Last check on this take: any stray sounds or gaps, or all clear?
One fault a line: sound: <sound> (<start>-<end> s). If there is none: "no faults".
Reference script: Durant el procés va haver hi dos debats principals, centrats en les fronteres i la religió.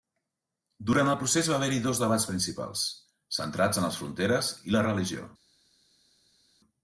no faults